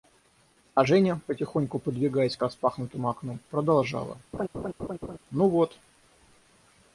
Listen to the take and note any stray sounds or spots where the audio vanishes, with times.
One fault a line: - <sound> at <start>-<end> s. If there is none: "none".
- laugh at 4.3-5.2 s